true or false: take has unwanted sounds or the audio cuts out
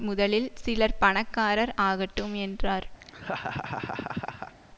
true